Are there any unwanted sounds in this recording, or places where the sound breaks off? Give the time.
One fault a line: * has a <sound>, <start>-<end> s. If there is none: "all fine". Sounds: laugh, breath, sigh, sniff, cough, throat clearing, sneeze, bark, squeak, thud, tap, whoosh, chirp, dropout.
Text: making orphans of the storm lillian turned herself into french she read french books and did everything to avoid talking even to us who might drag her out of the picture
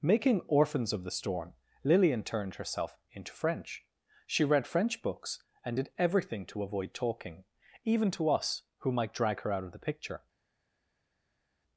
all fine